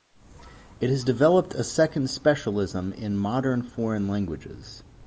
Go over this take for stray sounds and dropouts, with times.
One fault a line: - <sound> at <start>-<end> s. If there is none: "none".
none